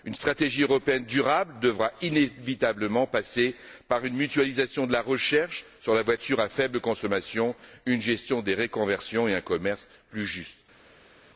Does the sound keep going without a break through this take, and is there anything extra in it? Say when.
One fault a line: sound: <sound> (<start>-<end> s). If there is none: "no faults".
no faults